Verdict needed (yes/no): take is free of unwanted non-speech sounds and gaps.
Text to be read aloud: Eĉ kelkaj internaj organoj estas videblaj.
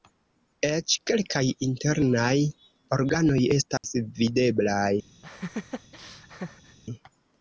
no